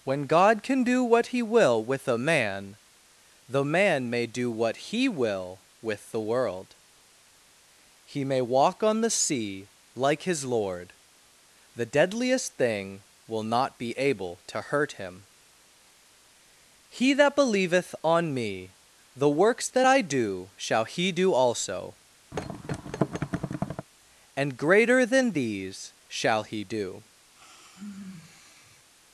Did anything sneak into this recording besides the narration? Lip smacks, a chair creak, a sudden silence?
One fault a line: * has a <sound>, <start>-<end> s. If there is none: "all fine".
* has a thud, 22.3-23.9 s
* has a sigh, 27.3-28.9 s